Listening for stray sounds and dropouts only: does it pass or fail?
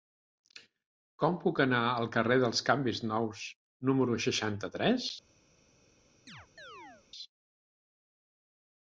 fail